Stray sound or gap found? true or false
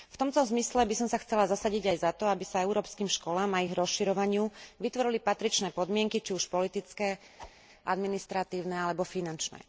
true